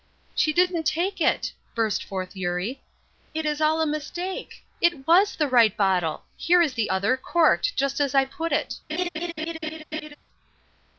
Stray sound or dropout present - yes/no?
yes